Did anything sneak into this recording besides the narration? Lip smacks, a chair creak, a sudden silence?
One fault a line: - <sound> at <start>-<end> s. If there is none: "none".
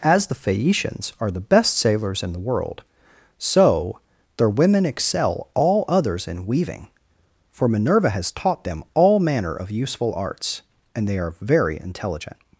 none